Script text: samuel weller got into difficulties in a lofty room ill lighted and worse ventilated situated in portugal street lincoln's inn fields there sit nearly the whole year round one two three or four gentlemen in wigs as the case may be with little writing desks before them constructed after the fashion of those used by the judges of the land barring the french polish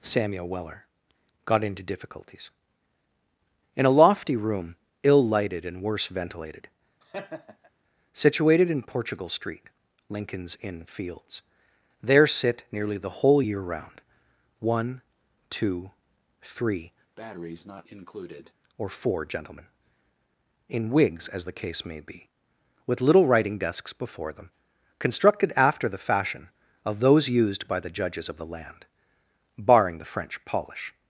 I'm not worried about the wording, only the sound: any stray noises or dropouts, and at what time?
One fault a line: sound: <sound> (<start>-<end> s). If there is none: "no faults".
sound: laugh (7.0-7.7 s)
sound: breath (17.2-18.5 s)